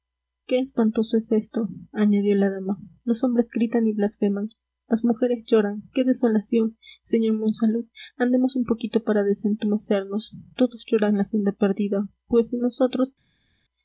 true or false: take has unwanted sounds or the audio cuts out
false